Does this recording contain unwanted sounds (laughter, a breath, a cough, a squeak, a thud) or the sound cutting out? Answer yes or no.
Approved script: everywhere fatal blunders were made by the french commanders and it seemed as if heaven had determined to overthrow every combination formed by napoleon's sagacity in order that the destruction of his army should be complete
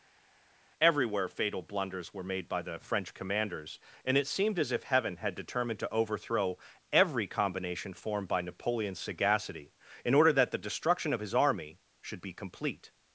no